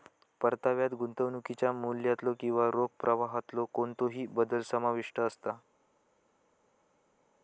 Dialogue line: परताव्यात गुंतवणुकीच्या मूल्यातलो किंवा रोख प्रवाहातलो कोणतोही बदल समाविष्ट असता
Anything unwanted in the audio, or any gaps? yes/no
no